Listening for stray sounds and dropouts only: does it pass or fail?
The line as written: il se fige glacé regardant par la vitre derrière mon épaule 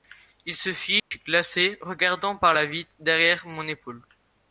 fail